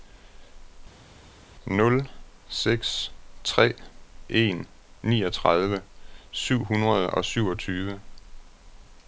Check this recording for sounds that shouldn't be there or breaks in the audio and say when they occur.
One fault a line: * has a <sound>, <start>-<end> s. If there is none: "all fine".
all fine